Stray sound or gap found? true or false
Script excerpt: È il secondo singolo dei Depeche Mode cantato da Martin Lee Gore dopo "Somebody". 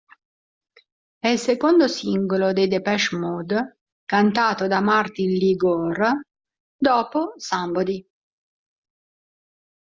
false